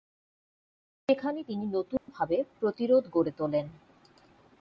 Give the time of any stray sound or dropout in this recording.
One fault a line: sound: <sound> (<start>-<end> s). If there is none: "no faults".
sound: dropout (2.0-2.1 s)